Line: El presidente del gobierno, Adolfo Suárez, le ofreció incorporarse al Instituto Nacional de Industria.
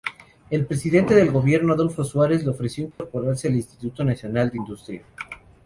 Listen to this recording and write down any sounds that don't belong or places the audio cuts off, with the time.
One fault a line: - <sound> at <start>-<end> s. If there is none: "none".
- dropout at 2.9-3.0 s